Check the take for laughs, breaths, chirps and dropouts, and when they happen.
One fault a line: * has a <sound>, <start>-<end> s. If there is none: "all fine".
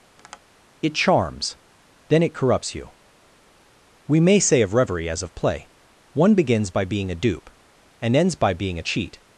* has a tap, 0.2-0.4 s